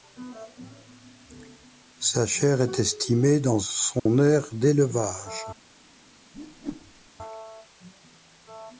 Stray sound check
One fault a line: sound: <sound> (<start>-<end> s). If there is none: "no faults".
sound: dropout (4.0-4.1 s)
sound: whoosh (6.3-7.1 s)